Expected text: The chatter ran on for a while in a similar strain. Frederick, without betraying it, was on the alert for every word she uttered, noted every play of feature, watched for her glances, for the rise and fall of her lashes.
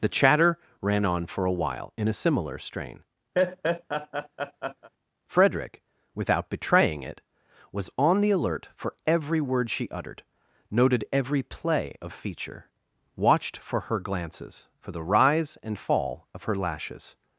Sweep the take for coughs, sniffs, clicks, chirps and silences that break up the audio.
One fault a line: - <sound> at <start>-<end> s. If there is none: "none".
- laugh at 3.3-4.9 s